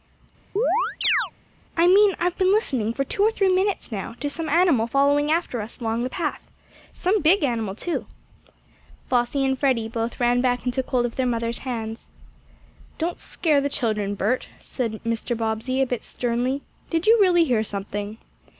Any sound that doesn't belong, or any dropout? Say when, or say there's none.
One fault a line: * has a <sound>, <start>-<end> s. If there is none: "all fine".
* has a chirp, 0.6-1.3 s